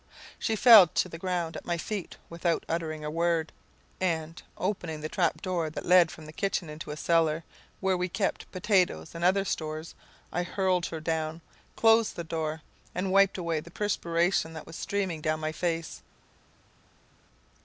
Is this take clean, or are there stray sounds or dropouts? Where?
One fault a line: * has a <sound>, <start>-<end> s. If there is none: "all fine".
all fine